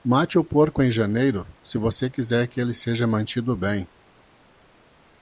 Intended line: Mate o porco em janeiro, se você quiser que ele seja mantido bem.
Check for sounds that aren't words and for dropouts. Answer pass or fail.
pass